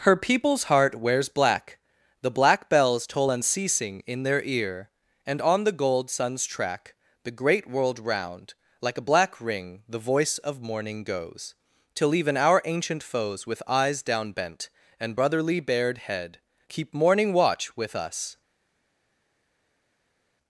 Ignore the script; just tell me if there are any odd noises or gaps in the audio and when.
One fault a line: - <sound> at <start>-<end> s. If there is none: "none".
none